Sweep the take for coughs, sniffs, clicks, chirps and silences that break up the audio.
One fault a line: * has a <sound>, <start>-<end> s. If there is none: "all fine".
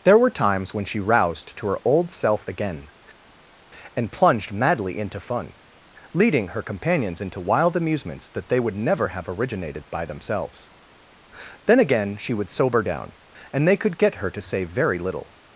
all fine